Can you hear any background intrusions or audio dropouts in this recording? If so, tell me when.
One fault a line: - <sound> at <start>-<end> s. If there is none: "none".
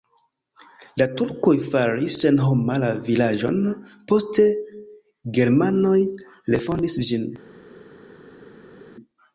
none